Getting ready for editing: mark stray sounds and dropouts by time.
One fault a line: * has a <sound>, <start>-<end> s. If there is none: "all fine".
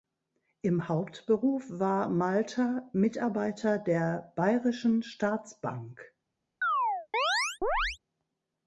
* has a chirp, 6.6-8.0 s